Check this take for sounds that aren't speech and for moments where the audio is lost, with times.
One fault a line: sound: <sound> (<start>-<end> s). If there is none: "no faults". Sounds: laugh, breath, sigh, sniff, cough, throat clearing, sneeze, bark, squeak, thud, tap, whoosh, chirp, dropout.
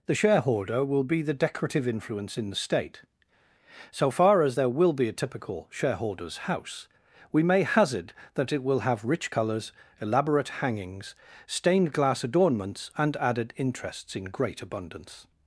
no faults